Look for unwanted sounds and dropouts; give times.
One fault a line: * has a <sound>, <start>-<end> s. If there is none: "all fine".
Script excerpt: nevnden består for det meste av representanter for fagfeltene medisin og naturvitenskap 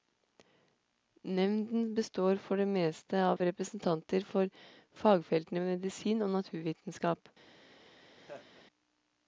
* has a dropout, 3.4-3.4 s
* has a laugh, 8.2-8.6 s